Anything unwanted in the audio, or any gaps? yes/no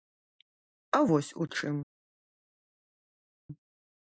no